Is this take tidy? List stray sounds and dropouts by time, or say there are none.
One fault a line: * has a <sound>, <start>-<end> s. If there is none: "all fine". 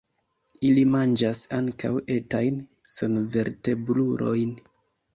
all fine